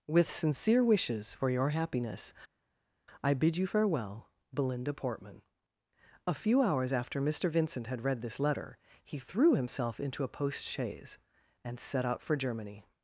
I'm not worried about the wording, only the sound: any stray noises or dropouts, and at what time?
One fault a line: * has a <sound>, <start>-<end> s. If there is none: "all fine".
all fine